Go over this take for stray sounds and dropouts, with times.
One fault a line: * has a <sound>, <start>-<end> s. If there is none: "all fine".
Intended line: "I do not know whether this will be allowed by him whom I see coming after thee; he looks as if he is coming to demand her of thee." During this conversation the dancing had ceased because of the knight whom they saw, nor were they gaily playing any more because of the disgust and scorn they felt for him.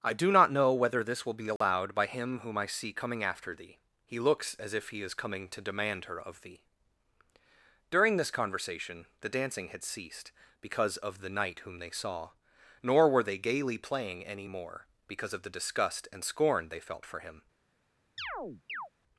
* has a dropout, 1.6-1.6 s
* has a chirp, 18.2-18.9 s